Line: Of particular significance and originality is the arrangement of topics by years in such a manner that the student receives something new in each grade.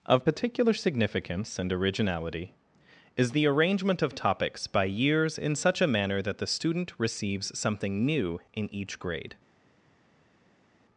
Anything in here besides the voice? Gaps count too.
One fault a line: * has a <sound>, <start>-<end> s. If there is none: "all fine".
all fine